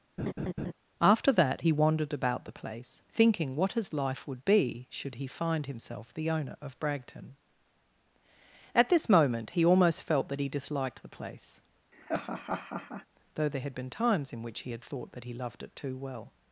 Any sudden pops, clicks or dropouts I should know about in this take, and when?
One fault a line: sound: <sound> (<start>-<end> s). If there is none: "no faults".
sound: laugh (0.2-0.7 s)
sound: laugh (11.9-13.1 s)